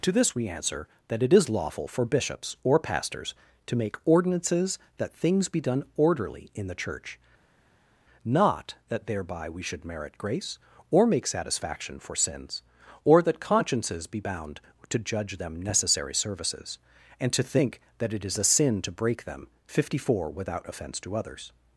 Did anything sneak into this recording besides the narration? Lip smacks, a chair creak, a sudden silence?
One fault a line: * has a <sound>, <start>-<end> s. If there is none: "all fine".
all fine